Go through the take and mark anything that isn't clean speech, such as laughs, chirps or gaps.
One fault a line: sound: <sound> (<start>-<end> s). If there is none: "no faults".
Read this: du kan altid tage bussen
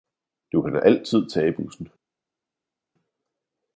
no faults